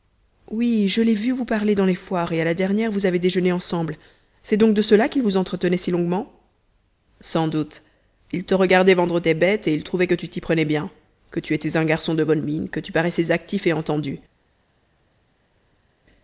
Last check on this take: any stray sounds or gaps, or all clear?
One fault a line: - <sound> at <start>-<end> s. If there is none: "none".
none